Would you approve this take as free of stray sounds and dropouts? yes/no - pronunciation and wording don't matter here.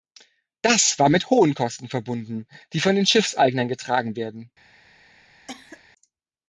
no